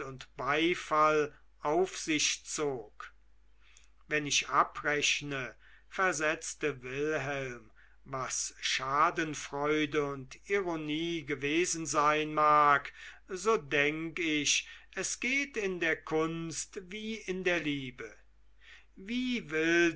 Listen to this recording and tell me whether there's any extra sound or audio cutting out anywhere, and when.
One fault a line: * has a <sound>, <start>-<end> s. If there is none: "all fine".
all fine